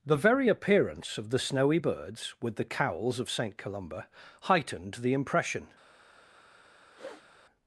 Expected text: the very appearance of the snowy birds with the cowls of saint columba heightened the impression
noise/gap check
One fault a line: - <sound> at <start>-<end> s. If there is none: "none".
- sniff at 6.9-7.3 s